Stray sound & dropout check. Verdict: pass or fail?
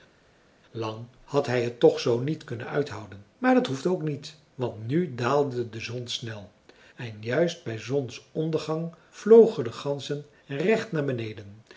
pass